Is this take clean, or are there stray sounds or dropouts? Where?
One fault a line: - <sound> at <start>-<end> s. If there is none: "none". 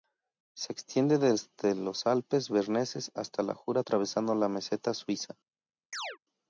- chirp at 5.9-6.2 s